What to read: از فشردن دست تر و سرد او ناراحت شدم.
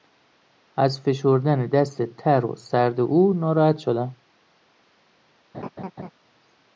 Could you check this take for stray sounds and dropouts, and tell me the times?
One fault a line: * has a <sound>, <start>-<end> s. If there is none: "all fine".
* has a laugh, 5.5-6.1 s